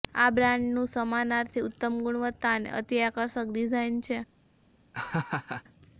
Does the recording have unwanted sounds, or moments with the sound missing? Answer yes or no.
yes